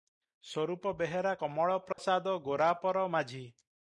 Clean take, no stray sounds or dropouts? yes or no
no